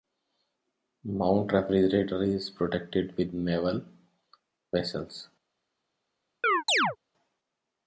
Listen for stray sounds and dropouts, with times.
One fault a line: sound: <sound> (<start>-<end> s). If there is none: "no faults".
sound: chirp (6.4-7.0 s)